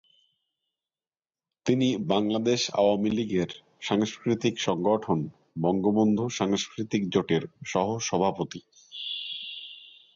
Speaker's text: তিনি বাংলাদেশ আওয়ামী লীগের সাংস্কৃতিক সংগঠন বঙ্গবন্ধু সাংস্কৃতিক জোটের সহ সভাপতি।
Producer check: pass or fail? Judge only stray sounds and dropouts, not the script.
pass